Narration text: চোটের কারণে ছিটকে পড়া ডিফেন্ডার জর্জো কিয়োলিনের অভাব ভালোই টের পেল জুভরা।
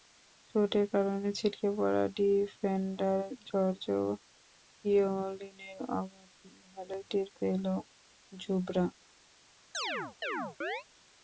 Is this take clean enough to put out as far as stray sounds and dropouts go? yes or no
no